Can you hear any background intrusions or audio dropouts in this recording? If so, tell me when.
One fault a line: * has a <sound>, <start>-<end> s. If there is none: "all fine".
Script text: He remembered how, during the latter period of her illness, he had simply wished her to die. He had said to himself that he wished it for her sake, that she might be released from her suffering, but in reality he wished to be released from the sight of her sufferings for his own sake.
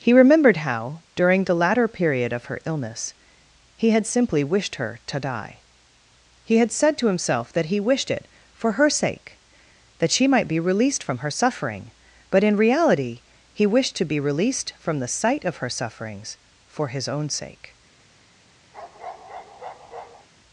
* has a bark, 18.7-20.3 s